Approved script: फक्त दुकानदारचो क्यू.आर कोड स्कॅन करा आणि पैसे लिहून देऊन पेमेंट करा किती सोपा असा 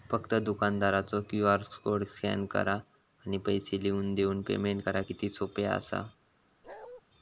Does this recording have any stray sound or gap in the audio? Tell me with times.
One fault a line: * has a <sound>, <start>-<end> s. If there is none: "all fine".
* has a bark, 6.6-7.0 s